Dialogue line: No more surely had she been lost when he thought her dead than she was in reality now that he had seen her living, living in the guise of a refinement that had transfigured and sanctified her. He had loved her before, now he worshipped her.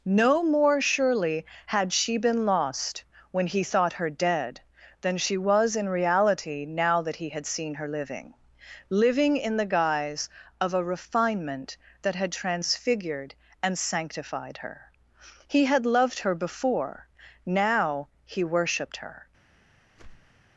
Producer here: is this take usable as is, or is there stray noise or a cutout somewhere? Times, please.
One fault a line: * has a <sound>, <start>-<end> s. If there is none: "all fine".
* has a whoosh, 19.9-20.4 s